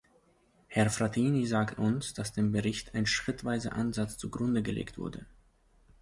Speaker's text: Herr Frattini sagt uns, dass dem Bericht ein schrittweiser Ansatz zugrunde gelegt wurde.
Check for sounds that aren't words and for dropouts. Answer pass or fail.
pass